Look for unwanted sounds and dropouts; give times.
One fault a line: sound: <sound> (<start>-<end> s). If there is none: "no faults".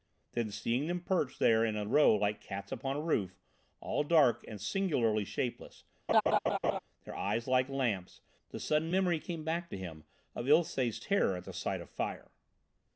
sound: laugh (6.1-6.8 s)